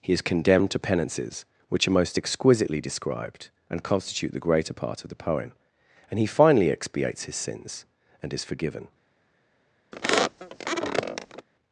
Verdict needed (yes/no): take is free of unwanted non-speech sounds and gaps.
no